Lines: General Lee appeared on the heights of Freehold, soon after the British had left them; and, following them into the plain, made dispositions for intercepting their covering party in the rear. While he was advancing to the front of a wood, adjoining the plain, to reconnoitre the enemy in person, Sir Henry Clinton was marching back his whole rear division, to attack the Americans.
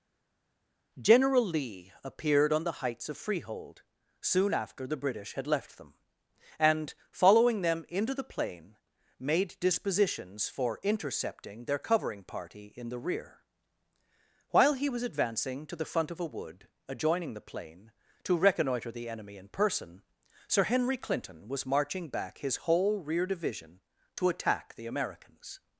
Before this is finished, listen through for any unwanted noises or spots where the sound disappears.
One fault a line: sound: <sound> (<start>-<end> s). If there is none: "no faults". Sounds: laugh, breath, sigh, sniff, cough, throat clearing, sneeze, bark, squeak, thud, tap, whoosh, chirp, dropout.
no faults